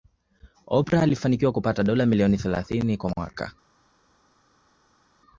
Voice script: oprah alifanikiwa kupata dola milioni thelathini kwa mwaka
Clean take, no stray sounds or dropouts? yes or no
yes